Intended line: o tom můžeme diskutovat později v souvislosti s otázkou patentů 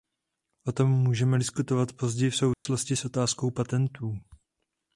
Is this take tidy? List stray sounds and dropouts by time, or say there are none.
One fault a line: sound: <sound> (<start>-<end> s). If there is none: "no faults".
sound: dropout (2.5-2.7 s)